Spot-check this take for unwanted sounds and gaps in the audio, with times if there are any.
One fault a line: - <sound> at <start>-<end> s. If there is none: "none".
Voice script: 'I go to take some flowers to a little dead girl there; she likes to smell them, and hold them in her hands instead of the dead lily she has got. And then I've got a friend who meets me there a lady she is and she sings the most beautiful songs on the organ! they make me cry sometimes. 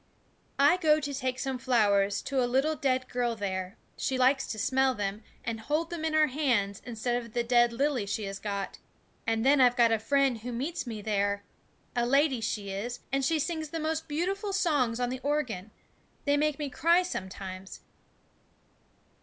none